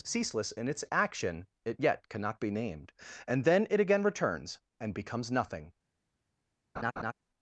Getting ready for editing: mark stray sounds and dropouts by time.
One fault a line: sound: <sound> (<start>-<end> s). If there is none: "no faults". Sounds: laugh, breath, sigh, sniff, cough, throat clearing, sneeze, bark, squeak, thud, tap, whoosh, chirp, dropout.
sound: laugh (6.8-7.1 s)